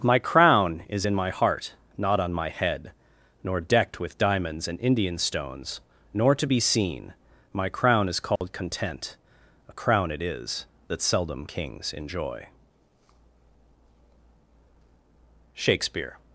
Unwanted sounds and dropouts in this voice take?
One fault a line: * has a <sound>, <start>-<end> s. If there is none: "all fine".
* has a dropout, 8.4-8.4 s